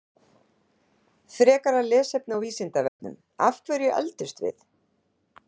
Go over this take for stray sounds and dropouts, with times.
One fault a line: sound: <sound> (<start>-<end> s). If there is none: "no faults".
sound: dropout (2.9-3.0 s)